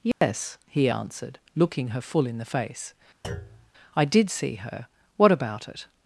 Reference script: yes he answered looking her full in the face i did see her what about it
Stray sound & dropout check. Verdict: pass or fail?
fail